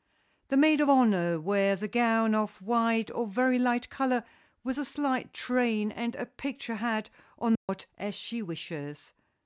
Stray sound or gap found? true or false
true